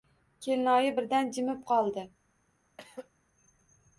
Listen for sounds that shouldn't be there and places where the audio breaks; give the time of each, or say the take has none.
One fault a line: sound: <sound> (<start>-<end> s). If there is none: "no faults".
sound: throat clearing (2.8-3.1 s)